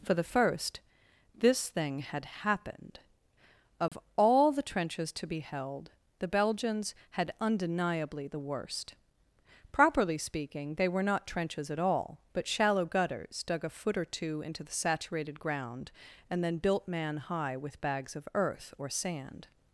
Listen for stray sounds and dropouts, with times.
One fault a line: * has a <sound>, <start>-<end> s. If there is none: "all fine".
* has a dropout, 3.9-3.9 s